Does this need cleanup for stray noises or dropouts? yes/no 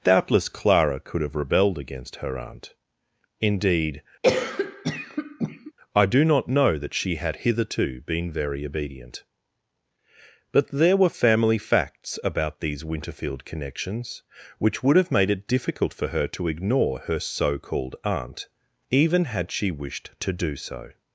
yes